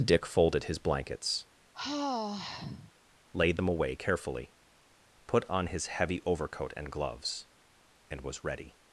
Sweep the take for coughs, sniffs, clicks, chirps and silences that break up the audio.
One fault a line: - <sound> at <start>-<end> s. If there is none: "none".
- sigh at 1.7-2.9 s